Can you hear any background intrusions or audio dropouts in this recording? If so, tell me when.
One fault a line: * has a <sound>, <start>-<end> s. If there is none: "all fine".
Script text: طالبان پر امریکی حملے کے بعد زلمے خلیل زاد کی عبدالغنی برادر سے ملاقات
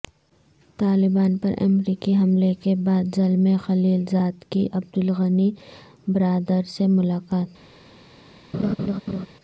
* has a laugh, 8.5-9.3 s